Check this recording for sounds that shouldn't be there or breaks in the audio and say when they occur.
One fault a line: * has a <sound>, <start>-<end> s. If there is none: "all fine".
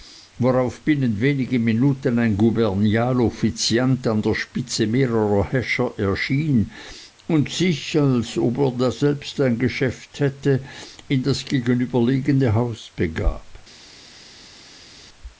all fine